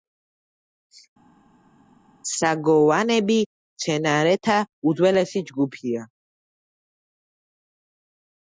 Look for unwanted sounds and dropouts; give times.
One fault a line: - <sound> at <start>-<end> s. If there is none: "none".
none